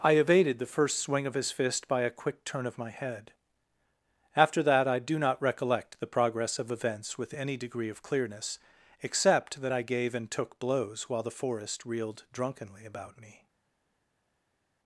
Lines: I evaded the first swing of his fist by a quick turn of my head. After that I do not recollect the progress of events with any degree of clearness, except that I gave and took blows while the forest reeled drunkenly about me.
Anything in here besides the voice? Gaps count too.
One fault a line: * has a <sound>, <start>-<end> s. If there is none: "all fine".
all fine